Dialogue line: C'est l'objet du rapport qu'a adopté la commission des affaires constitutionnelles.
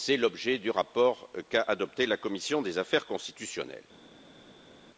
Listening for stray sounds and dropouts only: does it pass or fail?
pass